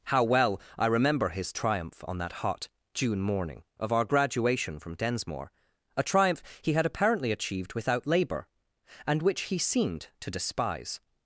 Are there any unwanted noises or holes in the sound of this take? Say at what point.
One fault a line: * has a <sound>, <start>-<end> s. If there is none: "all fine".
all fine